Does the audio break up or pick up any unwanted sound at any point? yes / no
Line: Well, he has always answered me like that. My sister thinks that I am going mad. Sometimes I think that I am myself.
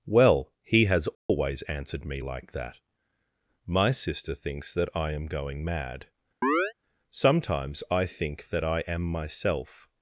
yes